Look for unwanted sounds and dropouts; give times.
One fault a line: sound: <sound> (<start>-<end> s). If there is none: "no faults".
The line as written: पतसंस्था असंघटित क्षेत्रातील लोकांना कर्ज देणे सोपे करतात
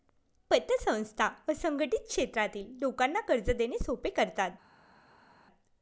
no faults